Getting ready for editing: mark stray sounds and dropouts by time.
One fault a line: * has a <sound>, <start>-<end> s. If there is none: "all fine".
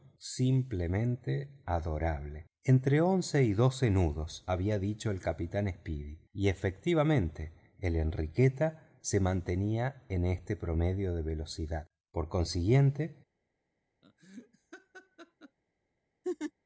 * has a laugh, 14.0-15.6 s
* has a laugh, 16.2-16.5 s